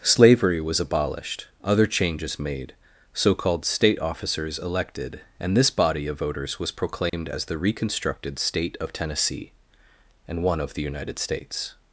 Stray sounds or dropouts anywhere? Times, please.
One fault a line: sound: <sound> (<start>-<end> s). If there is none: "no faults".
sound: dropout (7.1-7.1 s)